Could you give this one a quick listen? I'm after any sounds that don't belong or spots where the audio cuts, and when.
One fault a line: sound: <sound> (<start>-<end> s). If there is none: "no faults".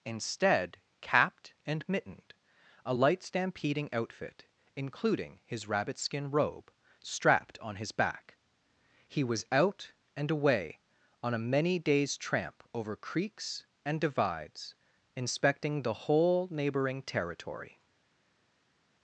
no faults